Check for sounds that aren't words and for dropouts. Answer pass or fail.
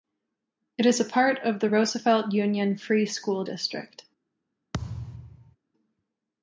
fail